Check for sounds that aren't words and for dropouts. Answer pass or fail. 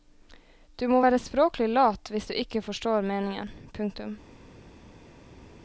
pass